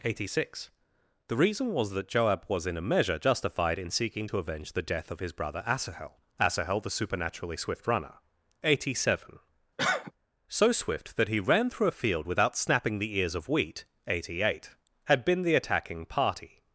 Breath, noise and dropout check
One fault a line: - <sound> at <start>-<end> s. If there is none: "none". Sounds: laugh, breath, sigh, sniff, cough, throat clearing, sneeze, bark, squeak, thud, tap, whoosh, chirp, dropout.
- cough at 9.8-10.1 s